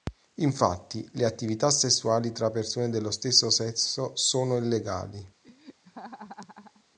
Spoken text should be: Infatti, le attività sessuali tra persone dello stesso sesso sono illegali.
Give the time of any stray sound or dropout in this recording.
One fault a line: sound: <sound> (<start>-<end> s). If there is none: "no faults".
sound: laugh (5.4-6.8 s)